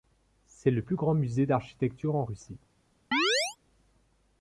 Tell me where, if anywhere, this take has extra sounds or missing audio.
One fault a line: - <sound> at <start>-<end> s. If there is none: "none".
- chirp at 3.1-3.6 s